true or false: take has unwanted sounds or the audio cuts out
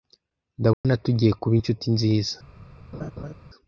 true